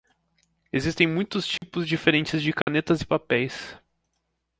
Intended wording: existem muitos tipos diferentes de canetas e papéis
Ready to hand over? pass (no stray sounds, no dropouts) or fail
fail